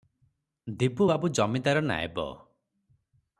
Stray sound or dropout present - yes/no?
no